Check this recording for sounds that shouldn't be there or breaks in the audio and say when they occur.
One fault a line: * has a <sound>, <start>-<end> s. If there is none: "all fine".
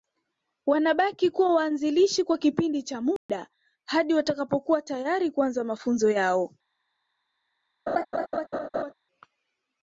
* has a dropout, 3.2-3.3 s
* has a laugh, 7.9-8.9 s